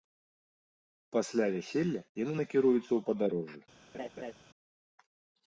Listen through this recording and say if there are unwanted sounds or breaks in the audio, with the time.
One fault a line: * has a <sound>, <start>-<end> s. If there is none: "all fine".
* has a laugh, 3.9-4.3 s